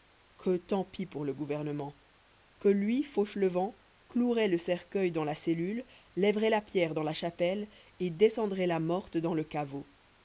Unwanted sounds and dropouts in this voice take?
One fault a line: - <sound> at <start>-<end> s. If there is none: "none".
none